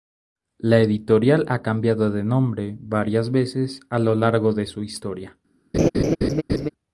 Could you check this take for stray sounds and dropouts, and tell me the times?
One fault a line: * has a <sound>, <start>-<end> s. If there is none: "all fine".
* has a laugh, 5.7-6.7 s